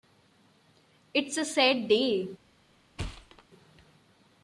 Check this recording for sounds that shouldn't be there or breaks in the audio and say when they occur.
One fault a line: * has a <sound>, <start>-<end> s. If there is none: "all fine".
* has a thud, 3.0-3.4 s